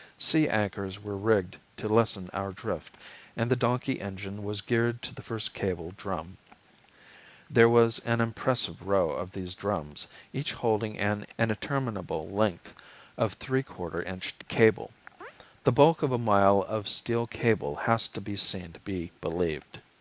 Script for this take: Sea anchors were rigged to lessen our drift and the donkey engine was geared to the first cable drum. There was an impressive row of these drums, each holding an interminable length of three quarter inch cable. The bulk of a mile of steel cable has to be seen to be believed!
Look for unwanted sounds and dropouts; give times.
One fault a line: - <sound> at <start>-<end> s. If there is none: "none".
- chirp at 15.2-15.3 s